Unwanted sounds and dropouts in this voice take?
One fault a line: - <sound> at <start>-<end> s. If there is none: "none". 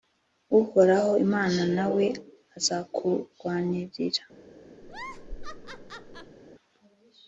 - laugh at 4.8-6.4 s